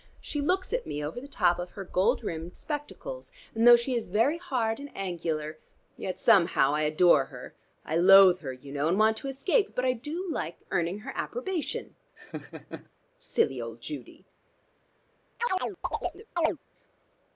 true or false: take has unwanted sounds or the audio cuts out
true